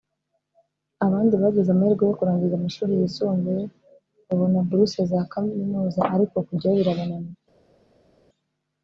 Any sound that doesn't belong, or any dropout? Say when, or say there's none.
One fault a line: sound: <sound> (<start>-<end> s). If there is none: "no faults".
no faults